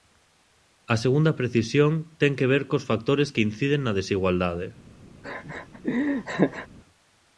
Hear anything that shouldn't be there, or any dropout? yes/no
yes